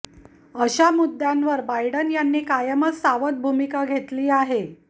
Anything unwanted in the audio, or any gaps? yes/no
no